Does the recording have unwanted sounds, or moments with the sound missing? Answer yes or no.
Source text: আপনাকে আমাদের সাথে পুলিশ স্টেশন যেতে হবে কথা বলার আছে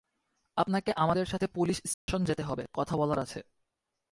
yes